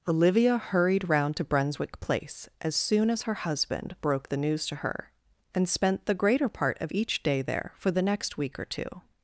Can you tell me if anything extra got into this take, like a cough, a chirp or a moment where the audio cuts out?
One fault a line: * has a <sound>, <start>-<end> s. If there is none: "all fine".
all fine